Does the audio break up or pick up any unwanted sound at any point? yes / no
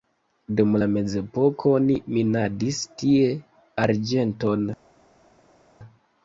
no